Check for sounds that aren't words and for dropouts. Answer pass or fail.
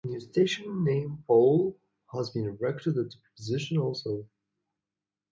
pass